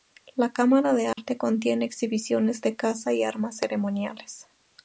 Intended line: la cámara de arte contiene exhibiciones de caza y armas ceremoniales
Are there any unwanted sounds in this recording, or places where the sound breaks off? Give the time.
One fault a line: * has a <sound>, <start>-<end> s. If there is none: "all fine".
* has a dropout, 1.1-1.2 s